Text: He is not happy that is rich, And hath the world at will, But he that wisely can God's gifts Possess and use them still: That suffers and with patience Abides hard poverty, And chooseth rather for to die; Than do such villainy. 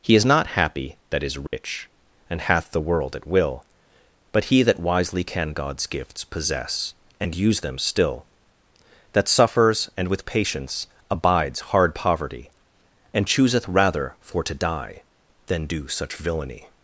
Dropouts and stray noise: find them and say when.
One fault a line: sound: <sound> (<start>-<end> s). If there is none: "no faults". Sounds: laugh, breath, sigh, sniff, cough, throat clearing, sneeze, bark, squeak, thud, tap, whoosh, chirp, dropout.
sound: dropout (1.5-1.5 s)